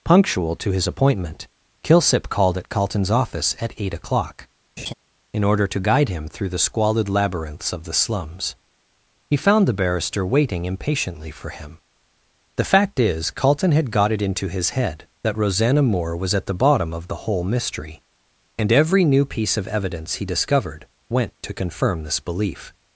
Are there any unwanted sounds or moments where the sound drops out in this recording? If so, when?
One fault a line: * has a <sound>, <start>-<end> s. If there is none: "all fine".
* has a laugh, 4.8-4.9 s